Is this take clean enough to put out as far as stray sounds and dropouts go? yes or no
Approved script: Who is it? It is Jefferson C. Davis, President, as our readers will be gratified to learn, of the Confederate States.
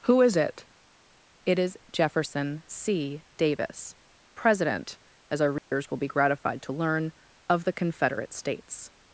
no